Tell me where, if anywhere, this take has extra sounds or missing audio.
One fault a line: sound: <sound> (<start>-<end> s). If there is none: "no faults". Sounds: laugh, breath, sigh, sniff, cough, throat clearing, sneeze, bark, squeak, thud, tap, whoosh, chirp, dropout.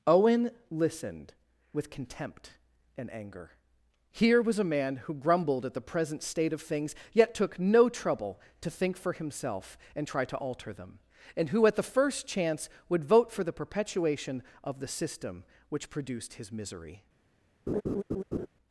sound: laugh (17.7-18.5 s)